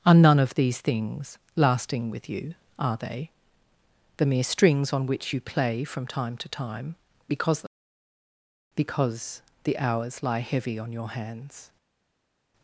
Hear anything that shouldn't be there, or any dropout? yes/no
no